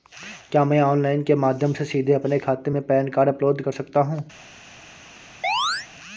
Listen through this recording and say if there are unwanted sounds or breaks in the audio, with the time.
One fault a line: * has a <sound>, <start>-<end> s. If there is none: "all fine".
* has a chirp, 5.4-5.9 s